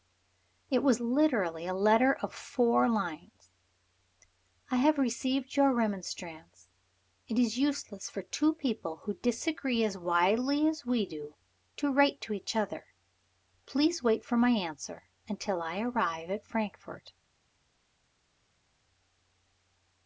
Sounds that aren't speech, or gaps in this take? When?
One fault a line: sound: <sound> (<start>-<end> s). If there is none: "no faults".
no faults